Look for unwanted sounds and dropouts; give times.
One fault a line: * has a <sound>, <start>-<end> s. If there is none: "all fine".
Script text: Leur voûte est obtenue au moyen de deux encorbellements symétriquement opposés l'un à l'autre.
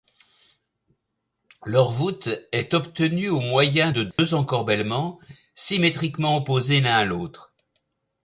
* has a dropout, 4.1-4.2 s